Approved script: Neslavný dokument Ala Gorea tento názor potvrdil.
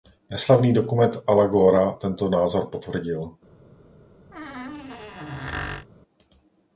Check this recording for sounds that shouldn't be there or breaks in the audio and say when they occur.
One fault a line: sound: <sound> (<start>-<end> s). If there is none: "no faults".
sound: squeak (4.3-5.9 s)